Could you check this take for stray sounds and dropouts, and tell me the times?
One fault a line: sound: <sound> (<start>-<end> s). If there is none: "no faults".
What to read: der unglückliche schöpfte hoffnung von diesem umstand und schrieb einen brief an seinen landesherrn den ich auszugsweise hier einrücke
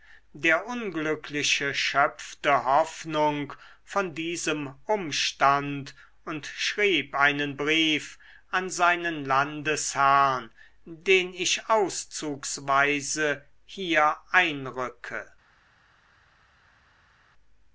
no faults